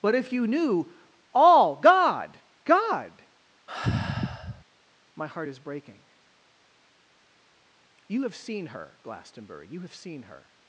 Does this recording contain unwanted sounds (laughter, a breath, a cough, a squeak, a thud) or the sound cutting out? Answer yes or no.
yes